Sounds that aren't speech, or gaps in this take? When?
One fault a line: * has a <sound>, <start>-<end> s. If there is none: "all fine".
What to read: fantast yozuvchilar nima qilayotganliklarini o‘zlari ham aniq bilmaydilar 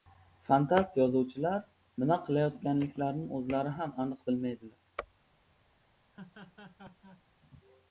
* has a laugh, 6.1-7.2 s